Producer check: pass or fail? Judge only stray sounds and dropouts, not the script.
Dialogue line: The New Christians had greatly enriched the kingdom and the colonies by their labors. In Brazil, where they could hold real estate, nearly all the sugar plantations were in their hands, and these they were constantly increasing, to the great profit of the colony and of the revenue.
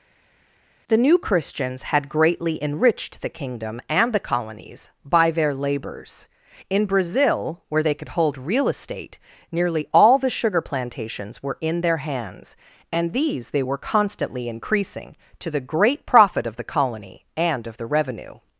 pass